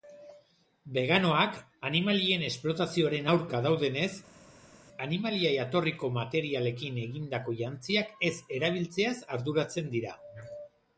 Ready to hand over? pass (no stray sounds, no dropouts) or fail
pass